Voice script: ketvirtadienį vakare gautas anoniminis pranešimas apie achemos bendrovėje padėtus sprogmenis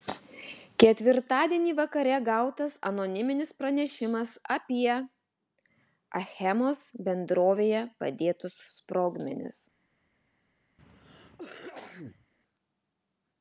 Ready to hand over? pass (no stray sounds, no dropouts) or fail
fail